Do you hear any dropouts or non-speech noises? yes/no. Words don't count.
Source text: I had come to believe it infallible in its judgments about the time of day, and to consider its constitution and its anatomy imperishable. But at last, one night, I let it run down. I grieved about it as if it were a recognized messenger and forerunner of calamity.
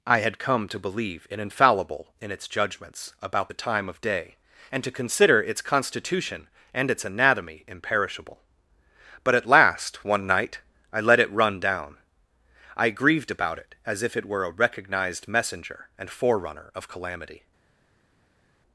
no